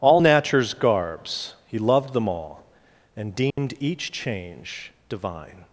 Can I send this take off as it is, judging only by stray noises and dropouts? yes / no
no